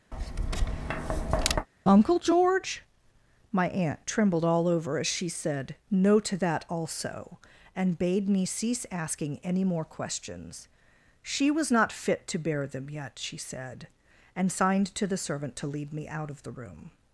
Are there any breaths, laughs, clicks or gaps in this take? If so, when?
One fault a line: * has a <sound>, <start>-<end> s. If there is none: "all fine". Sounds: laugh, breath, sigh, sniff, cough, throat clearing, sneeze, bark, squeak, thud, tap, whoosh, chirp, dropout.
* has a tap, 0.1-1.7 s